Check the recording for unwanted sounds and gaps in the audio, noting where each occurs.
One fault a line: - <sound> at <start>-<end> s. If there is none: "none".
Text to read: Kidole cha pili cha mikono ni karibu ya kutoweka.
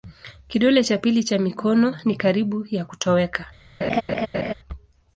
- laugh at 3.8-4.5 s